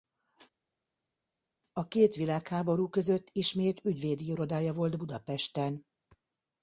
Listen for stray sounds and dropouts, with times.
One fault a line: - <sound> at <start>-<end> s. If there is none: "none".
none